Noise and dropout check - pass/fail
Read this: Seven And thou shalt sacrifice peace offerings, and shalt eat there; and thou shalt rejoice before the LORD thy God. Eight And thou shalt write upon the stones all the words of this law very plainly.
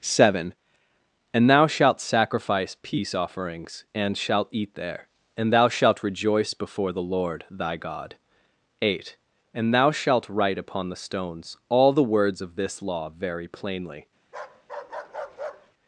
fail